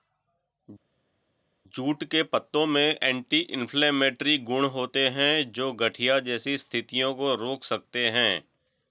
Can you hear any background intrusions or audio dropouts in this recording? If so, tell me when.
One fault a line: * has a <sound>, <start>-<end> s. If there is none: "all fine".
all fine